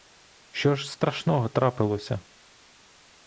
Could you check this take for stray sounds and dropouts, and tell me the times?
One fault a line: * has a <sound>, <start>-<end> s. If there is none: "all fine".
all fine